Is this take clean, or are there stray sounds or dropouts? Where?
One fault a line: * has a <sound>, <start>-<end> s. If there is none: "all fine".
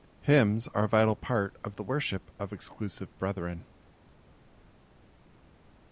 all fine